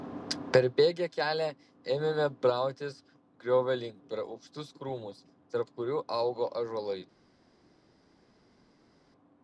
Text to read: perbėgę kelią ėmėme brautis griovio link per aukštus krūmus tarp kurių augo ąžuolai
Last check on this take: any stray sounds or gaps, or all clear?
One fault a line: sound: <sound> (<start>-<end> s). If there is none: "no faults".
no faults